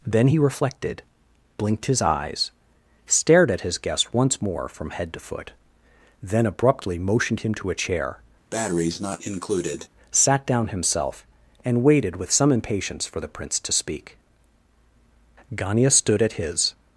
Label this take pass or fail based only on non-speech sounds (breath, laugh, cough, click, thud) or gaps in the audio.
fail